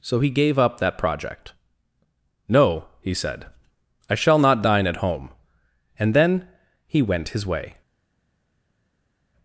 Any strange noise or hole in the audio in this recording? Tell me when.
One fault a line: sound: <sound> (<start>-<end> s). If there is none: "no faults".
no faults